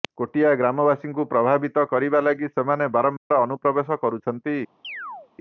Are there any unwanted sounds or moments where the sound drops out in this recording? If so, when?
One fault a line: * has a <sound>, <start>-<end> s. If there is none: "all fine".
* has a dropout, 3.2-3.3 s
* has a chirp, 4.8-5.3 s